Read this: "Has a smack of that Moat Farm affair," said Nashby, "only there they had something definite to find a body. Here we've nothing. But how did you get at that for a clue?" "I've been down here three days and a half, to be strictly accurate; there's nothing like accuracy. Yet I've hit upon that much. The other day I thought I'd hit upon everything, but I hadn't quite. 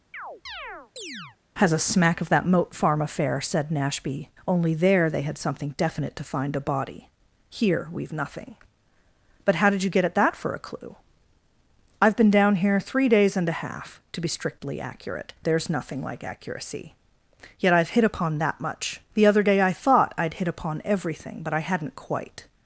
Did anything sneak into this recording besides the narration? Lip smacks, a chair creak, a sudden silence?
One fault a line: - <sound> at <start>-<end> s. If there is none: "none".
- chirp at 0.1-1.4 s